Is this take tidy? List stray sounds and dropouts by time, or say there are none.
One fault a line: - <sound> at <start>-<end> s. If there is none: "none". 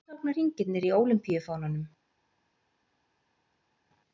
none